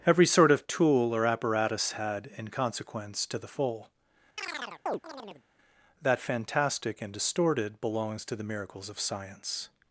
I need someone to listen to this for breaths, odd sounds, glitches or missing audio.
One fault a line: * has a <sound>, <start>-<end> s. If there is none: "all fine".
* has a chirp, 4.4-5.4 s